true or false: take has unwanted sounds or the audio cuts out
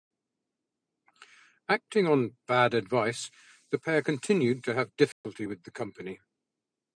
true